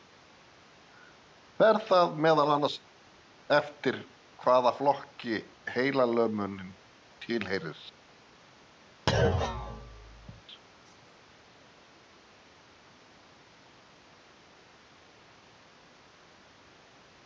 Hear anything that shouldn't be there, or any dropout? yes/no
yes